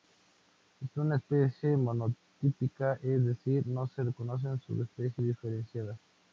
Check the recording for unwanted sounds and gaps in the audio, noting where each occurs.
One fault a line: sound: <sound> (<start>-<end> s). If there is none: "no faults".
no faults